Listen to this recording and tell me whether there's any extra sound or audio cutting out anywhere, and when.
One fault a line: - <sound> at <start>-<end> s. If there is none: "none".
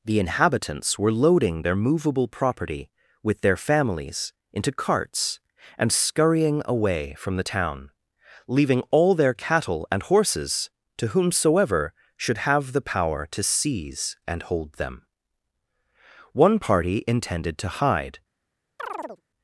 - chirp at 18.8-19.2 s